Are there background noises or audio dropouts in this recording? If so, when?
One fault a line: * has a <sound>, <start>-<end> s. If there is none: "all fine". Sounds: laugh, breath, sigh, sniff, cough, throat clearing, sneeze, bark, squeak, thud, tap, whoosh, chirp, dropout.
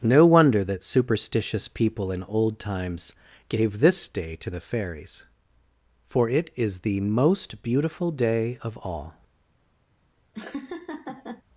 * has a laugh, 10.3-11.4 s